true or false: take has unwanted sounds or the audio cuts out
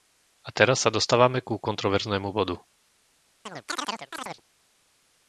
true